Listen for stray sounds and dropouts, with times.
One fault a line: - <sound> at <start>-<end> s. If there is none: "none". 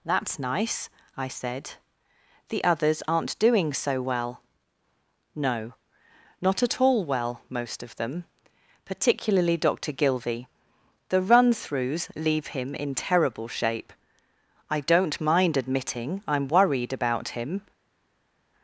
none